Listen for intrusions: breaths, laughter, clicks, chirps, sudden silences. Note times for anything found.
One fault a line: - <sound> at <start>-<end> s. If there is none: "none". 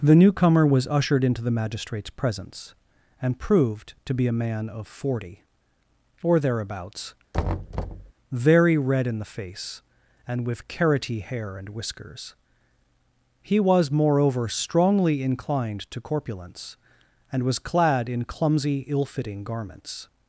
- thud at 7.3-8.1 s